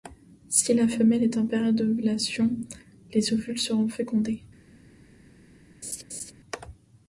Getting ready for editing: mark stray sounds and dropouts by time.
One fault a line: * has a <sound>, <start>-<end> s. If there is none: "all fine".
* has a laugh, 5.8-6.3 s